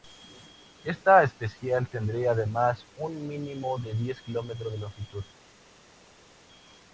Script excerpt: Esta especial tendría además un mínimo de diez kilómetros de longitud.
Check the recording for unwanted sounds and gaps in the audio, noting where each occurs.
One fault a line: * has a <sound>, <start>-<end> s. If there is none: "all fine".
all fine